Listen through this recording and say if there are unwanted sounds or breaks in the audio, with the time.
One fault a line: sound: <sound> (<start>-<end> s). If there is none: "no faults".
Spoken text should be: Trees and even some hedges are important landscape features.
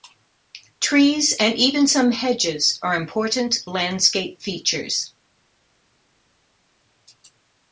no faults